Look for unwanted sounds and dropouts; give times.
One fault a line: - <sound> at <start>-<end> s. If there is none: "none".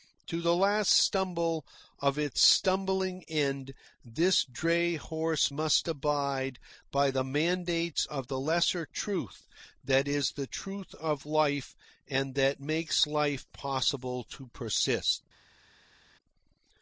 none